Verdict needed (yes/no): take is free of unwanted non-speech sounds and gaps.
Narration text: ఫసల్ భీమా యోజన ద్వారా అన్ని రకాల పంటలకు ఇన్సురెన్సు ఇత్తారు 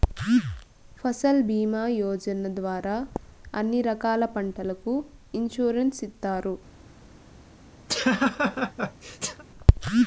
no